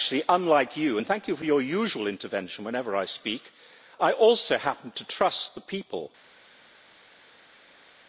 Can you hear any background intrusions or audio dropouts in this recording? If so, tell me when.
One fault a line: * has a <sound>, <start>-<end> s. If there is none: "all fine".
all fine